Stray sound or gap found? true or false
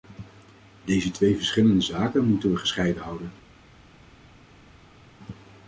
false